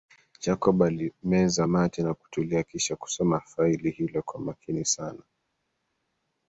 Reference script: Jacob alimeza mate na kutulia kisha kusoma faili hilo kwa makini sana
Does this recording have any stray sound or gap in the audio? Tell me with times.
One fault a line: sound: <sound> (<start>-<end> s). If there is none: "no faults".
no faults